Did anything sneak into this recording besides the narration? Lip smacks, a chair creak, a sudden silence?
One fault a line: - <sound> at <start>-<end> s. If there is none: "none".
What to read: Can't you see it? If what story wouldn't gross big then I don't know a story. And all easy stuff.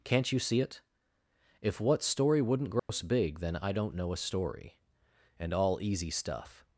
- dropout at 2.8-2.9 s